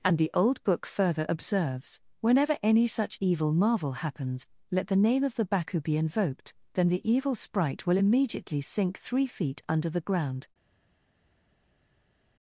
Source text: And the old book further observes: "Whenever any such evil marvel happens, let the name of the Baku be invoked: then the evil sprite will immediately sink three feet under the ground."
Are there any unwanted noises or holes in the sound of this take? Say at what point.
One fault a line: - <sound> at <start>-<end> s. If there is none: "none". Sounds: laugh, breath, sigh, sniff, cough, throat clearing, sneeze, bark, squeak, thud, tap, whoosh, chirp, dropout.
none